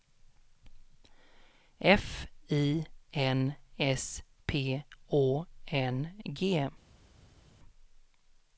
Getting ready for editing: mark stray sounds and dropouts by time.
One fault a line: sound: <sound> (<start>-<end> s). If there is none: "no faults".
no faults